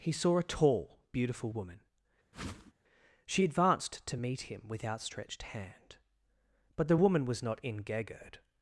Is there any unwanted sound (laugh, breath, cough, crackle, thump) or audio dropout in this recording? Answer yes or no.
yes